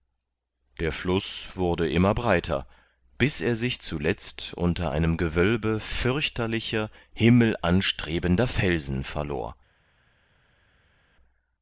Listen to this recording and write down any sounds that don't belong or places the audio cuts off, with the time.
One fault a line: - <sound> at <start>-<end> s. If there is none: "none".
none